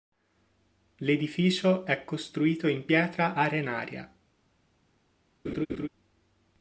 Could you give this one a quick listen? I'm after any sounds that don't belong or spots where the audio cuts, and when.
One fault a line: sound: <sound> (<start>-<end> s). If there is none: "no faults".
sound: laugh (5.4-5.9 s)